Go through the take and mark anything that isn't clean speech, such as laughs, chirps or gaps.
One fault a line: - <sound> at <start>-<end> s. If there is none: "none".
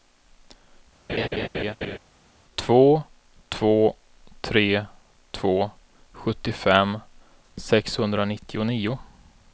- laugh at 1.1-2.0 s